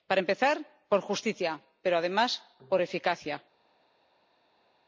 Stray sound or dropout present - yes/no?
no